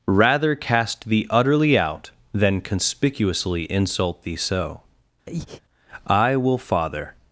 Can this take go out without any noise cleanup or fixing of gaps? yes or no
no